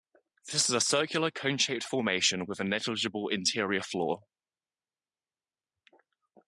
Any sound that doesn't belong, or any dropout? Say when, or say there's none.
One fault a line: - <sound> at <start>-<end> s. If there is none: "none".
none